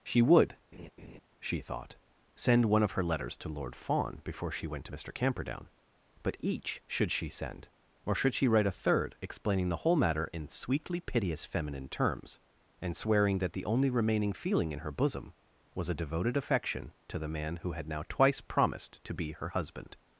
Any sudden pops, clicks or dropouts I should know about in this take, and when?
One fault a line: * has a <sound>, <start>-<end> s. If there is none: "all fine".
* has a laugh, 0.7-1.2 s